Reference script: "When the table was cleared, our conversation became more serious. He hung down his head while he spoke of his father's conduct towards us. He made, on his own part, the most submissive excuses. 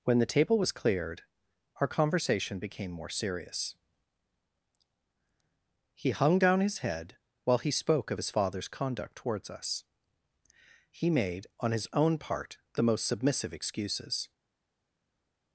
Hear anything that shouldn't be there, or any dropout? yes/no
no